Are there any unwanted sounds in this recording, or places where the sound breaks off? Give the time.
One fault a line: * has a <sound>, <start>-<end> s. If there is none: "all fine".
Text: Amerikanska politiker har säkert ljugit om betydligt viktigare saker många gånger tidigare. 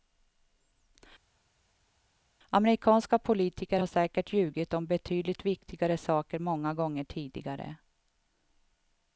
all fine